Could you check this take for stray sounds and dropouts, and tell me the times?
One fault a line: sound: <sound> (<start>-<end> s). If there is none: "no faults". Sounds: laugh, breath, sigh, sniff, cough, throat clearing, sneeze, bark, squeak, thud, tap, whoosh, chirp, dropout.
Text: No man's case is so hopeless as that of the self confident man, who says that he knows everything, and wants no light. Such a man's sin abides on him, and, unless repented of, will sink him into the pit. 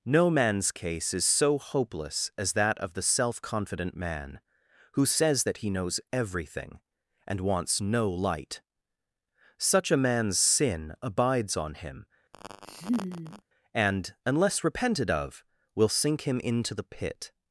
sound: laugh (12.3-13.4 s)